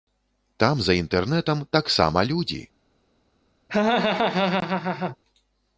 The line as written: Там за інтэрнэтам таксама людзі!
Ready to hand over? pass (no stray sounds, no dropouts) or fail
fail